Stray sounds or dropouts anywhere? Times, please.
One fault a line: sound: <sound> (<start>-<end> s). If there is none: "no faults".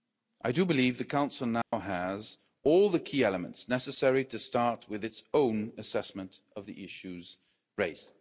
sound: dropout (1.6-1.7 s)